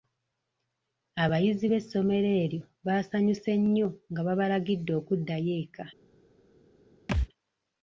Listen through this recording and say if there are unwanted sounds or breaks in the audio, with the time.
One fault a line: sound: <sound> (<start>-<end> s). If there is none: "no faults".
sound: thud (7.1-7.3 s)